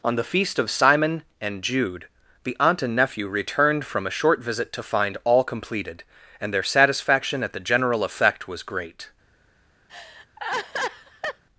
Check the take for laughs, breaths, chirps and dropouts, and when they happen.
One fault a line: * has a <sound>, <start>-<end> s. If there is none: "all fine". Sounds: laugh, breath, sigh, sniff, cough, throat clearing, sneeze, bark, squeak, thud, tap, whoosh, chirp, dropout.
* has a laugh, 9.9-11.4 s